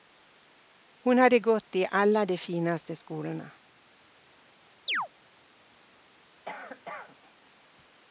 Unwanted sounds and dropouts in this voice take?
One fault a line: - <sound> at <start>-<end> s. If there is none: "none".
- chirp at 4.9-5.1 s
- cough at 6.4-7.2 s